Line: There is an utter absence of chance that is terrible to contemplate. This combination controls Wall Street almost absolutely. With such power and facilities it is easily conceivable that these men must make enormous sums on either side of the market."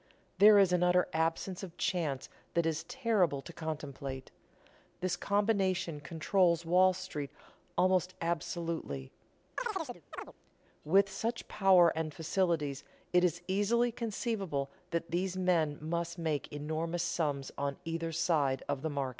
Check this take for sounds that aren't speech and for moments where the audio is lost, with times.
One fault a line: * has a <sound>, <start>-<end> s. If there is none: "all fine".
* has a chirp, 9.6-10.3 s